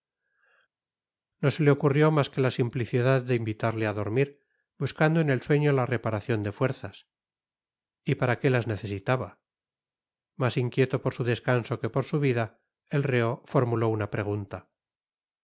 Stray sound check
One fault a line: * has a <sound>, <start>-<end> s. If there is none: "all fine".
all fine